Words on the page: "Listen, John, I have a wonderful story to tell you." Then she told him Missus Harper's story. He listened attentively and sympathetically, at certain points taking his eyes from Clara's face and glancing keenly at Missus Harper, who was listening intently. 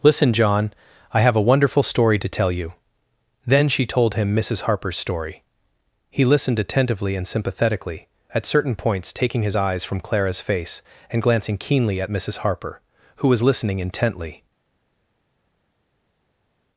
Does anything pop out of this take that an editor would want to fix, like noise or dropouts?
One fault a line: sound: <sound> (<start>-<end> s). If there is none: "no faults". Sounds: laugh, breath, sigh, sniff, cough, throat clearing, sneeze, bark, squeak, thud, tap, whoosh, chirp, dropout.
no faults